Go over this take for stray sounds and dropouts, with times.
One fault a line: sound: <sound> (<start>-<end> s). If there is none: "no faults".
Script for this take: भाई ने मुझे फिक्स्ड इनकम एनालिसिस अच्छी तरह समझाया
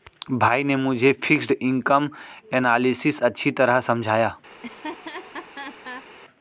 sound: laugh (4.5-6.1 s)